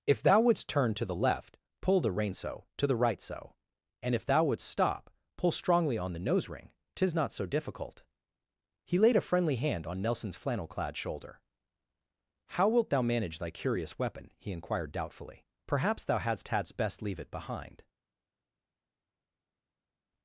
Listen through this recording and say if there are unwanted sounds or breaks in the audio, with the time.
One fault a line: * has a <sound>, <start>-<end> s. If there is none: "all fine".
all fine